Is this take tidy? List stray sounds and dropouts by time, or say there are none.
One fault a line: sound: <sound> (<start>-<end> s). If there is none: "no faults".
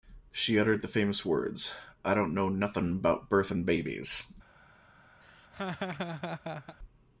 sound: laugh (5.2-6.8 s)